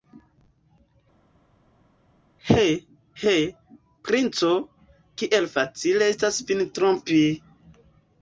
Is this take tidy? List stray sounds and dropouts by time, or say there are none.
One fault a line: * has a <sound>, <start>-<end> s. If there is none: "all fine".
all fine